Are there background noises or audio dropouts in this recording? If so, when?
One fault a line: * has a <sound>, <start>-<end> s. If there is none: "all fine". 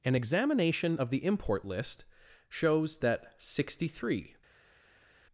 all fine